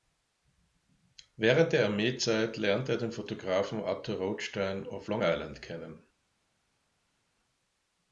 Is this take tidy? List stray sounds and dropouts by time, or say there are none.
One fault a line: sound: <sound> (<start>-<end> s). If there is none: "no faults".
no faults